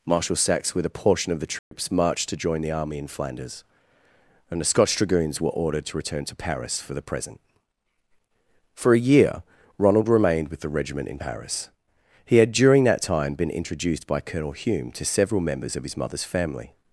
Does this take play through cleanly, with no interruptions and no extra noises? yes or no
no